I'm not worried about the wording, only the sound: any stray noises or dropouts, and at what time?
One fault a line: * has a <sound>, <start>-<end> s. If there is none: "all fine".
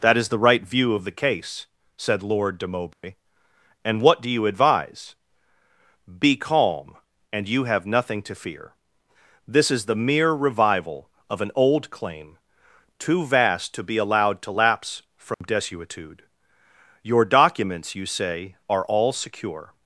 * has a dropout, 2.9-3.0 s
* has a dropout, 15.3-15.4 s